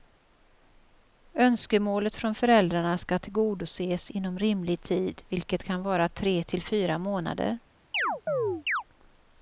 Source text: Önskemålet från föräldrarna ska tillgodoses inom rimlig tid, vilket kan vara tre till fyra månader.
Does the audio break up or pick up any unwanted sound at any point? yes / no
yes